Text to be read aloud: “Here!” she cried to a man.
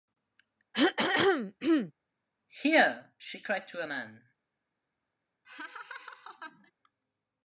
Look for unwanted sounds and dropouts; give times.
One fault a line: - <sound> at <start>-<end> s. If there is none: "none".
- throat clearing at 0.7-1.9 s
- laugh at 5.4-6.7 s